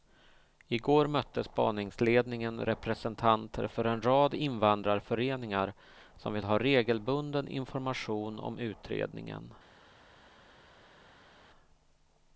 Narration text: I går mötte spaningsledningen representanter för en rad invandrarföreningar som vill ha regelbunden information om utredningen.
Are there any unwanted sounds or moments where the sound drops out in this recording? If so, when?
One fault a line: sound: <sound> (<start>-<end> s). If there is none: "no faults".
no faults